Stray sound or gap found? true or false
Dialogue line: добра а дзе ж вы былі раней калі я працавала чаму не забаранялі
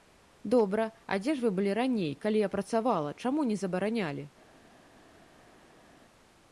false